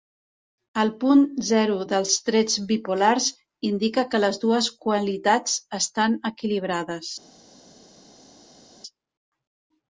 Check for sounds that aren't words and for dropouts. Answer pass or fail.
pass